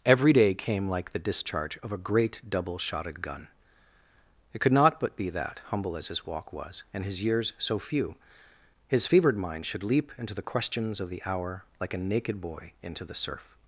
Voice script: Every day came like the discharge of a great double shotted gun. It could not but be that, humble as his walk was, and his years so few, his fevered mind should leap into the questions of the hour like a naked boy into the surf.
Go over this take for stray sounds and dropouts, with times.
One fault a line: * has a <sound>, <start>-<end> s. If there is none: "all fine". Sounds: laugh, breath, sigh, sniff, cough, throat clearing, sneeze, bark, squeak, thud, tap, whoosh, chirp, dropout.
all fine